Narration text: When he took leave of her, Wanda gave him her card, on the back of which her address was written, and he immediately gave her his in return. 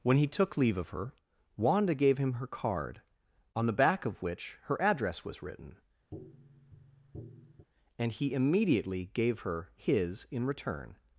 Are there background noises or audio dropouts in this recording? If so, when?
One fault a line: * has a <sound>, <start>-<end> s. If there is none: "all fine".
* has a tap, 6.1-7.7 s